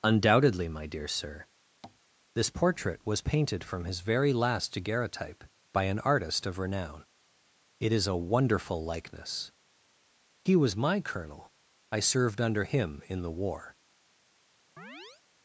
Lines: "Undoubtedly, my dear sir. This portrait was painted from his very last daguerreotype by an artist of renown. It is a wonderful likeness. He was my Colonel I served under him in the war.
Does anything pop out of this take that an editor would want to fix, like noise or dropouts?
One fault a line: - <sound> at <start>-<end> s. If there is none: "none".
- tap at 1.8-2.0 s
- chirp at 14.8-15.2 s